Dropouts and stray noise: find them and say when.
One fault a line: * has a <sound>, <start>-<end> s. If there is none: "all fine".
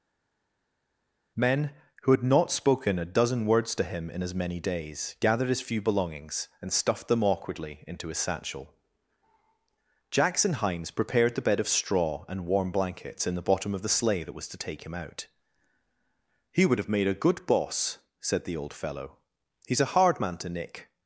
all fine